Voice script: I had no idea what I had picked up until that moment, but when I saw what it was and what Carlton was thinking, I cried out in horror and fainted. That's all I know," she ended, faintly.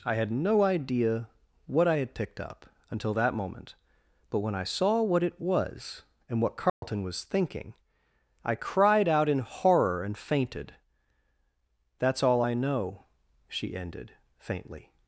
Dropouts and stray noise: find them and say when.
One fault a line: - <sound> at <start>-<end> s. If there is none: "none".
- dropout at 6.7-6.8 s